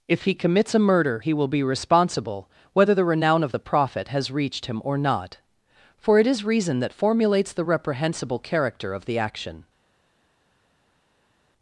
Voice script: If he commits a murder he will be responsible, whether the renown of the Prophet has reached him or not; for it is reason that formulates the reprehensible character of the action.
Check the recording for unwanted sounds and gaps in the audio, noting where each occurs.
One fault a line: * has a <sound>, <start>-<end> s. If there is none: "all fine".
all fine